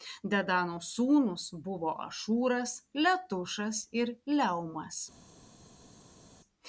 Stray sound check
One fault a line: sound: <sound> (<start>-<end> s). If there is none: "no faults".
no faults